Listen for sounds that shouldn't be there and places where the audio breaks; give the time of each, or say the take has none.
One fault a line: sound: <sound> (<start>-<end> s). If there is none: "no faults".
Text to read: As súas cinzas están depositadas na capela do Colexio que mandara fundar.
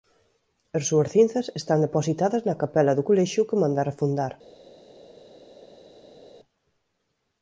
no faults